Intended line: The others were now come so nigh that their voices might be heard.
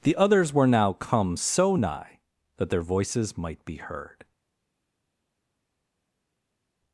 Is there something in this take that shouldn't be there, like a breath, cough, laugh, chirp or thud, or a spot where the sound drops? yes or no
no